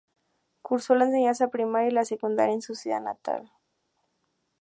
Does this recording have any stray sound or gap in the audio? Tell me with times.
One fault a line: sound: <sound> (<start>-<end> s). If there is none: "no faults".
no faults